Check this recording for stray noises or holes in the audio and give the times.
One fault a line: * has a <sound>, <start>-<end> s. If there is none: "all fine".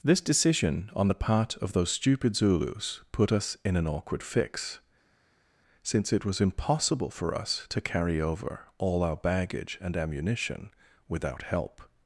all fine